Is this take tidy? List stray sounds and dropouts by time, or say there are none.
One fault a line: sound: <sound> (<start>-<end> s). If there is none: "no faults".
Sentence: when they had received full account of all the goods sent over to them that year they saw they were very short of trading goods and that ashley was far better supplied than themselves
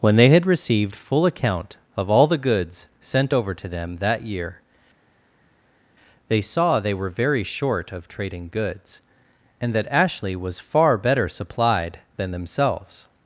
no faults